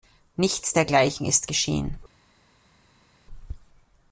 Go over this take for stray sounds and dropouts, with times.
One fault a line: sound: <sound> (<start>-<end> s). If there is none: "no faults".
no faults